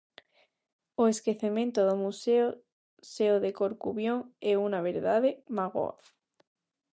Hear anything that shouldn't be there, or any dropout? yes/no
no